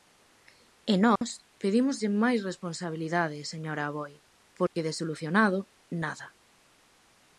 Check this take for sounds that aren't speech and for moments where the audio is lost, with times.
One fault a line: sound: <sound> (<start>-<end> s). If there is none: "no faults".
sound: dropout (1.2-1.2 s)
sound: dropout (4.7-4.8 s)